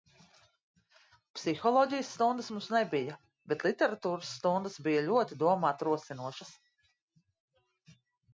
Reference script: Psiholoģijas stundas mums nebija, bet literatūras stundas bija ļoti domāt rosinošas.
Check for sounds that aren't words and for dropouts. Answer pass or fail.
pass